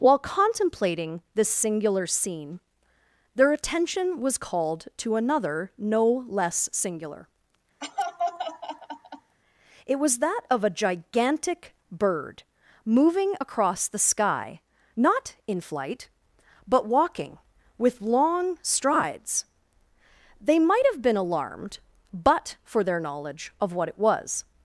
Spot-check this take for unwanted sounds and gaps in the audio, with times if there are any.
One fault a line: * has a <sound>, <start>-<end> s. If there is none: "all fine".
* has a laugh, 7.8-9.4 s